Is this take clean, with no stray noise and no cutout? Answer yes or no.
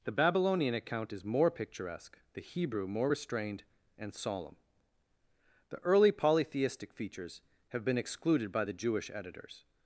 yes